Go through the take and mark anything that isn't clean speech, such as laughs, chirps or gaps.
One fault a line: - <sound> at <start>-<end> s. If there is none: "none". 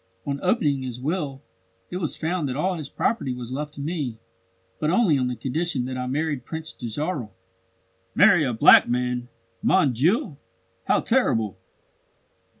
none